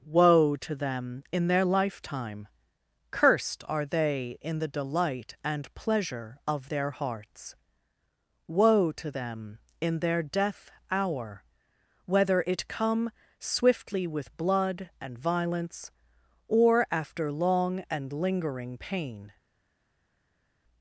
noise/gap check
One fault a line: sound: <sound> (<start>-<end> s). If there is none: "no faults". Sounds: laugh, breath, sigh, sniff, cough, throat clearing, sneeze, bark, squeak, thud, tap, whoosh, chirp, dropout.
no faults